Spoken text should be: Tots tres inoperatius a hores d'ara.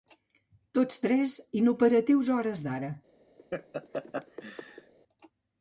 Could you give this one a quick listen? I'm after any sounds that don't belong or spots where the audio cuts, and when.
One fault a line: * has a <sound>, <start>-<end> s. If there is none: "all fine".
* has a laugh, 3.4-4.9 s